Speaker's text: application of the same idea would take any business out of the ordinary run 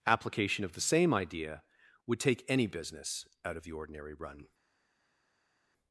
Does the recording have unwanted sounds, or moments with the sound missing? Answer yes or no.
no